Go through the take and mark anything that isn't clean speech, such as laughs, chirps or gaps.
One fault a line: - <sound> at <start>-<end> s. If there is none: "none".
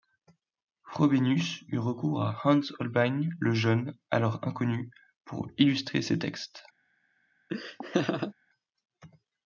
- laugh at 7.5-8.3 s